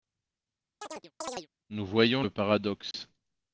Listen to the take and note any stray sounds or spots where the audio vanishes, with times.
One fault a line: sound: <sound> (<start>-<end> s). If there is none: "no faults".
sound: chirp (0.8-1.5 s)
sound: dropout (2.9-2.9 s)